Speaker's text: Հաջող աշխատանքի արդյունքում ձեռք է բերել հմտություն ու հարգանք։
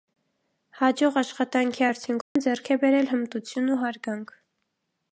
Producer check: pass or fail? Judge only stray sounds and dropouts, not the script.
fail